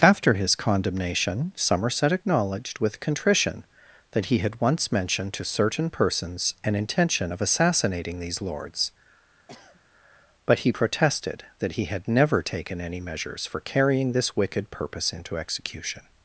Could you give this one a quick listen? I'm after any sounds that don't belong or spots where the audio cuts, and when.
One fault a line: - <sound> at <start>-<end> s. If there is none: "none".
- sniff at 9.5-9.8 s